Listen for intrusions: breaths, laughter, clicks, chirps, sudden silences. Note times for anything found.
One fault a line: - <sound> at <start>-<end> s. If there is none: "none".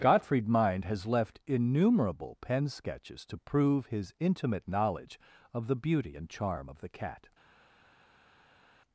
none